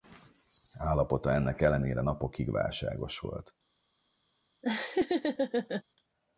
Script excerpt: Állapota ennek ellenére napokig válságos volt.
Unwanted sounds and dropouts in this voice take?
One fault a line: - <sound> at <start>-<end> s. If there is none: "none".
- laugh at 4.6-5.8 s